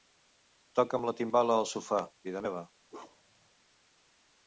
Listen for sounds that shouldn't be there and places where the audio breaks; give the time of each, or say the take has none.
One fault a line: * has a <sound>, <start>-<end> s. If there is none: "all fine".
* has a bark, 2.9-3.5 s